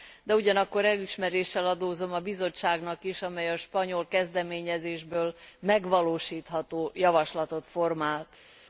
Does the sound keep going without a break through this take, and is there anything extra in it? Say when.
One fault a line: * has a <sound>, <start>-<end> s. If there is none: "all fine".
all fine